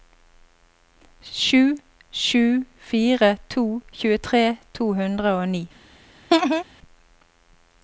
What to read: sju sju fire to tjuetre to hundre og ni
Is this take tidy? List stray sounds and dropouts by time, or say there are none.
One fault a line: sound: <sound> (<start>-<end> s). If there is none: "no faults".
sound: laugh (6.3-6.6 s)